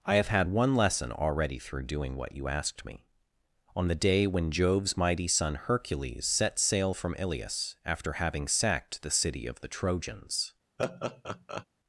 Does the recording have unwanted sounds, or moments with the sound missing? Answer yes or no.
yes